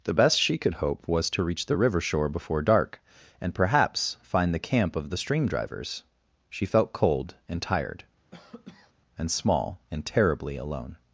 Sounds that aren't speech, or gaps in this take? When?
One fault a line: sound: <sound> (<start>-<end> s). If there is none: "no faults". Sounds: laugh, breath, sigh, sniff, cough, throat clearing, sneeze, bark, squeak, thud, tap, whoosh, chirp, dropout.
sound: cough (8.3-8.9 s)